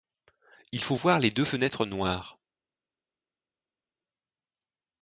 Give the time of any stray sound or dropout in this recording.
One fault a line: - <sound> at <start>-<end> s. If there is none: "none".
none